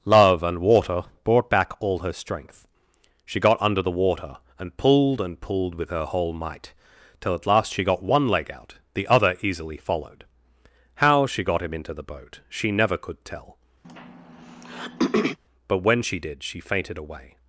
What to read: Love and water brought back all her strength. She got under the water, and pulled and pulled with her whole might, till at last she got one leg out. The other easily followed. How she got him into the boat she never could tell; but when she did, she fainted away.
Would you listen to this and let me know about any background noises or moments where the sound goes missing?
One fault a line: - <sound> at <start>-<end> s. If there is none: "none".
- throat clearing at 13.8-15.4 s